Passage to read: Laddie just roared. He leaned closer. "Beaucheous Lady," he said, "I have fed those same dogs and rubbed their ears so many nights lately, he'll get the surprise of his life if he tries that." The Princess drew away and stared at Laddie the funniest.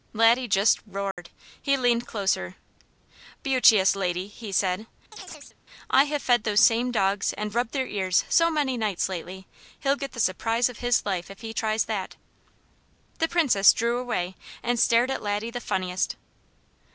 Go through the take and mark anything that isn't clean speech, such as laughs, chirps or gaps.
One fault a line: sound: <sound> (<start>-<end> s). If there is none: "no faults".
sound: dropout (1.1-1.2 s)
sound: chirp (5.1-5.6 s)